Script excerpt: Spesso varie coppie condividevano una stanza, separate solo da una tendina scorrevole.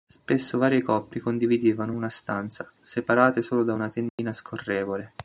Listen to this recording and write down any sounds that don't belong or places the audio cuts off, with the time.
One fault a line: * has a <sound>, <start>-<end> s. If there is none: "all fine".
* has a dropout, 4.1-4.2 s